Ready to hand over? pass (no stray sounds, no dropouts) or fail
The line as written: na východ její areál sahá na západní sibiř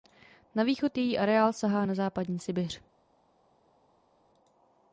pass